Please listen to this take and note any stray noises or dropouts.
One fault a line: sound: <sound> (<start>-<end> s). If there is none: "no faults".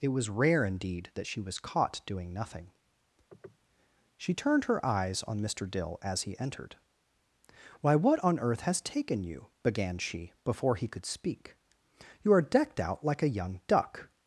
sound: sniff (3.3-3.6 s)